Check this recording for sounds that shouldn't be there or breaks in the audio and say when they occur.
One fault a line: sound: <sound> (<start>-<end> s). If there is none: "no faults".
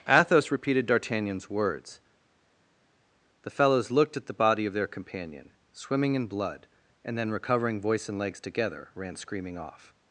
no faults